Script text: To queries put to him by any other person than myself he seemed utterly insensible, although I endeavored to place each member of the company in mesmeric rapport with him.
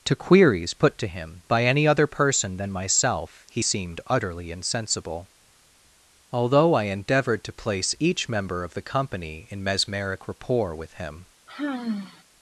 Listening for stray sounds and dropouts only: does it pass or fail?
fail